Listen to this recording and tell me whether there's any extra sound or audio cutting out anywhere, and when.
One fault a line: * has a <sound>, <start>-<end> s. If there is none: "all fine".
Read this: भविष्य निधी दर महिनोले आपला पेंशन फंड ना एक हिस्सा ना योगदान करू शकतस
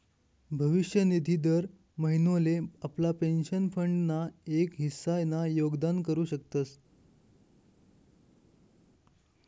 all fine